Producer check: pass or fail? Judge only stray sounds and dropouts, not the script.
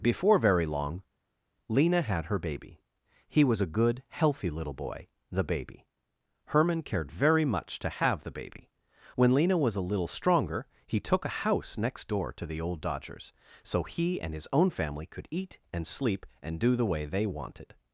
pass